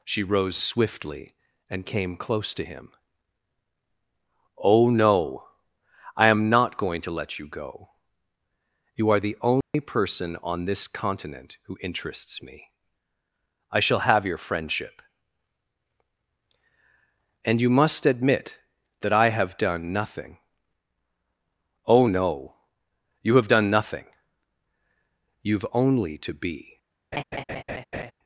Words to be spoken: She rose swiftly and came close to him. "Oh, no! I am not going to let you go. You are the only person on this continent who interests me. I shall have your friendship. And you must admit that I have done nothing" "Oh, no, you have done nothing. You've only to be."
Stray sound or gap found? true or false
true